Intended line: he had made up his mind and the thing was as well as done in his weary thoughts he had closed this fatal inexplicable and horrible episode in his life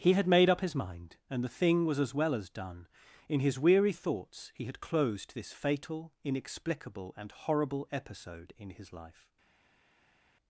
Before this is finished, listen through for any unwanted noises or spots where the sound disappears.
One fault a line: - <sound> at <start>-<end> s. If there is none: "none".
none